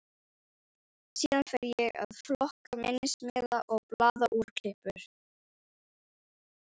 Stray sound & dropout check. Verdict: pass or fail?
pass